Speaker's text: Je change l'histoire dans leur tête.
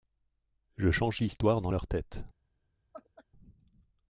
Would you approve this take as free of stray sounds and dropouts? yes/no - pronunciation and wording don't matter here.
no